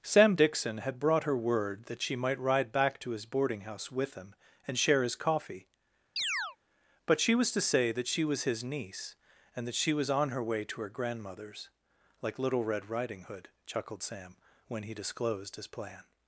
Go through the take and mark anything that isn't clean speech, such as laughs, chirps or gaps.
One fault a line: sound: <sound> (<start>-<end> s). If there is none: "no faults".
sound: chirp (6.2-6.6 s)